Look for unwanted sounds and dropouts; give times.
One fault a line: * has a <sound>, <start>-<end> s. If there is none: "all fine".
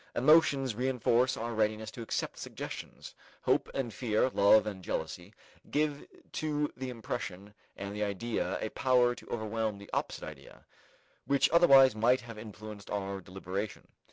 all fine